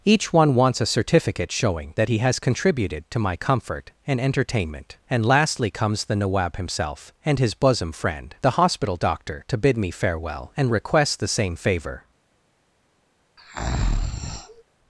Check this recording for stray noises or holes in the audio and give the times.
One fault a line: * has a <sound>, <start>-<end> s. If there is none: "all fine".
* has a breath, 13.4-14.6 s